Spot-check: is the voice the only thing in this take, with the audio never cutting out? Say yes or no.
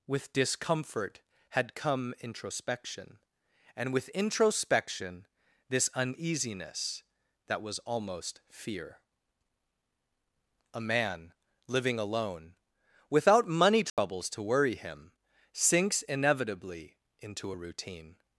no